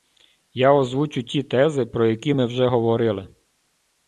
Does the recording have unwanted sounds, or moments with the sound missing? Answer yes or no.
no